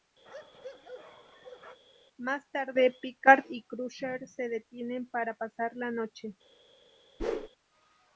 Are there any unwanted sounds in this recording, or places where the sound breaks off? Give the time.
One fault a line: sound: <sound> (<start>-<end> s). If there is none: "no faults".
sound: bark (0.2-1.8 s)
sound: whoosh (7.2-7.5 s)